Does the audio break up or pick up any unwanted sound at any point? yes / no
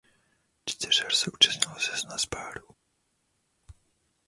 no